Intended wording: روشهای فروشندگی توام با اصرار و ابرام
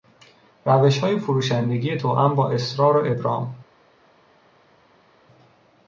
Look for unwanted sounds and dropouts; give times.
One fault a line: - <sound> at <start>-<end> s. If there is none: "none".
none